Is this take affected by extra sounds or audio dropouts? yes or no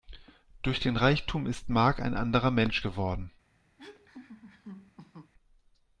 yes